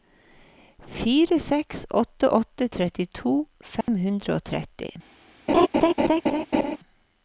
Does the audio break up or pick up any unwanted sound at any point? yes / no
yes